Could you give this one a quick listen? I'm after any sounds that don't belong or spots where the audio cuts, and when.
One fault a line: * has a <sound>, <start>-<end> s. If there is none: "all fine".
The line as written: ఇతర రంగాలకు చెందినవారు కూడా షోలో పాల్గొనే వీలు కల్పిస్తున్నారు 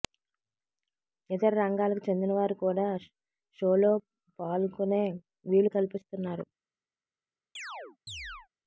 * has a chirp, 7.6-8.5 s